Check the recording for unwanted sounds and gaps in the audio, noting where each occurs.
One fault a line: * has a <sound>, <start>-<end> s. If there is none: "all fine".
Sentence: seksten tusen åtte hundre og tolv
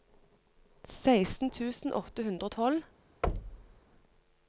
* has a thud, 3.2-3.8 s